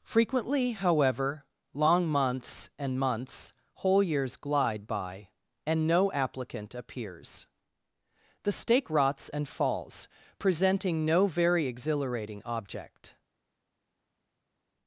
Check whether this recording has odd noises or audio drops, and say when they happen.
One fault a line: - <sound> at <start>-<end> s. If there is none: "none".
none